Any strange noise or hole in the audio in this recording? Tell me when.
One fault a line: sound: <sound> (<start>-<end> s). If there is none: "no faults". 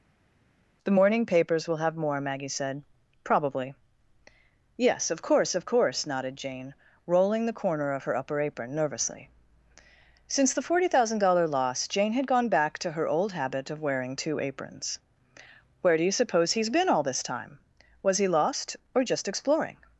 no faults